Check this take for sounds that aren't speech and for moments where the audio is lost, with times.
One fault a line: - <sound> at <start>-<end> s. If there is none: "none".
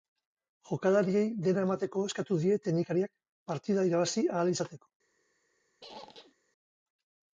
- squeak at 5.8-6.3 s